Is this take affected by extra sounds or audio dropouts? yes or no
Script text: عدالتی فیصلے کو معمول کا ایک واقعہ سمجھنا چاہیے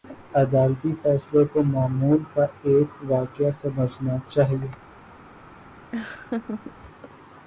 yes